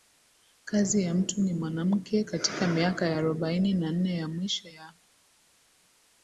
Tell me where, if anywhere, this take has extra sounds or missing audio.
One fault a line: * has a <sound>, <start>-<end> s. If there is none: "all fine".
all fine